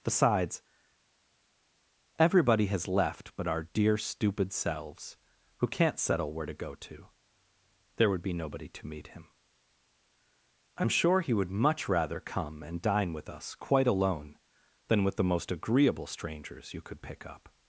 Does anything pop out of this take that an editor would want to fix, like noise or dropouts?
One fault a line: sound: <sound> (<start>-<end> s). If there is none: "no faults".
no faults